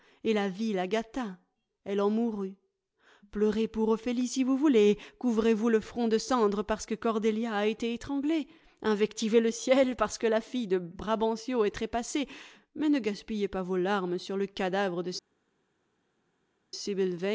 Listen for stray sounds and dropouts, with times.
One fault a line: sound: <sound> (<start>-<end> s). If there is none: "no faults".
no faults